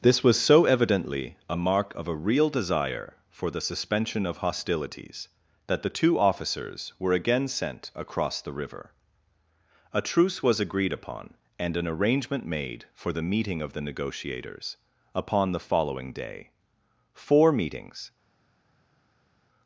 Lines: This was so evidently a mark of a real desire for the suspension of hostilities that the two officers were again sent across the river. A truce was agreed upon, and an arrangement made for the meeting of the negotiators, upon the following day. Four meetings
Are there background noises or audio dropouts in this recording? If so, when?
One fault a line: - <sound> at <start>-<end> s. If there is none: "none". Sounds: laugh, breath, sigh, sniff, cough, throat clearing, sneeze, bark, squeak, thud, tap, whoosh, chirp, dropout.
none